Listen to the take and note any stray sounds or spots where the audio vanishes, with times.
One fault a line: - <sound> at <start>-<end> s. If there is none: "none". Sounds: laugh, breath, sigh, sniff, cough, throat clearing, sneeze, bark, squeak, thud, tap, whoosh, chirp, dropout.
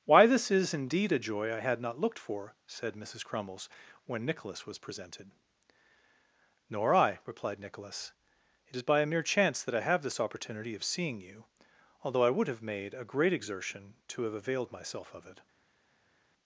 none